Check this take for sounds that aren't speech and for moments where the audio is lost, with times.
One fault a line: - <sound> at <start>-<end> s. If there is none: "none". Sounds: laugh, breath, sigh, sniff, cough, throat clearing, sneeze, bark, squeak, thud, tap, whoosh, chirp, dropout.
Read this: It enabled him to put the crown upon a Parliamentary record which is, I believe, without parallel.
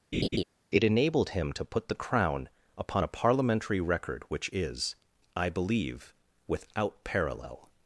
- laugh at 0.1-0.4 s